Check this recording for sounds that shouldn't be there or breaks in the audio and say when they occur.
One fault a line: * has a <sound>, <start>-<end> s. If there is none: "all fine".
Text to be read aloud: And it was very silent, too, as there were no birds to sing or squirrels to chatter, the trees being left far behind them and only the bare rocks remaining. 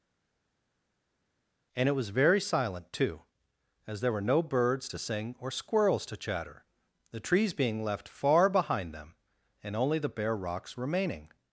all fine